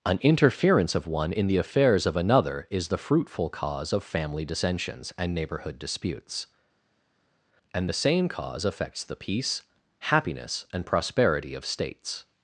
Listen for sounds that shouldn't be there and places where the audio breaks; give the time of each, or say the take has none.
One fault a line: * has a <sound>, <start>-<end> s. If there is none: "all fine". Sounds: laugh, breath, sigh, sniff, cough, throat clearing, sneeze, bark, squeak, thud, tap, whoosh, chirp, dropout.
all fine